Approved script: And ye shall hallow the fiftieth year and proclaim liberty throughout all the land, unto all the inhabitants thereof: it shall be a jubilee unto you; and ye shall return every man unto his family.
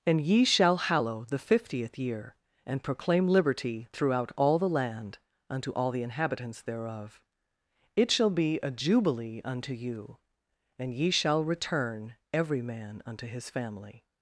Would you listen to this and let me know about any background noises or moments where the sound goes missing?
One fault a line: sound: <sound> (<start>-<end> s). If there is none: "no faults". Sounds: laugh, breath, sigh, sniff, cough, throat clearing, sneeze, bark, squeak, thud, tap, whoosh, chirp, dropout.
no faults